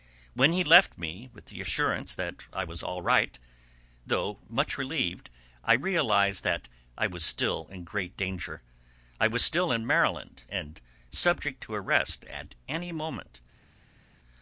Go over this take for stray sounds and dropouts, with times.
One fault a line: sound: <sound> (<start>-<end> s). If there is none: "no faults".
no faults